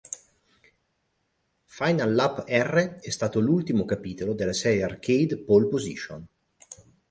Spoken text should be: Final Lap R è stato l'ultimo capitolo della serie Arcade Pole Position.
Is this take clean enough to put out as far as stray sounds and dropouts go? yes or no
yes